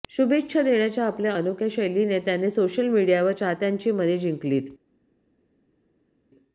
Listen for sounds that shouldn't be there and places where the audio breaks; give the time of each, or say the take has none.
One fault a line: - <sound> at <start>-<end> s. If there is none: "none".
none